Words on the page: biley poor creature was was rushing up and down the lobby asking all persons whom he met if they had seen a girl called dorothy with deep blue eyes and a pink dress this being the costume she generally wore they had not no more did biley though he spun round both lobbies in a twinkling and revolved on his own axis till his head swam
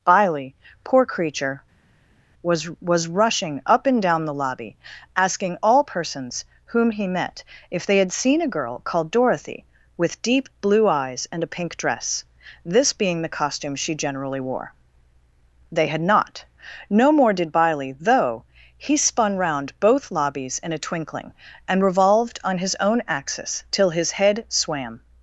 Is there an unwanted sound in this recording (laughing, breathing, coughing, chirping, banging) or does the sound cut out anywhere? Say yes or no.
no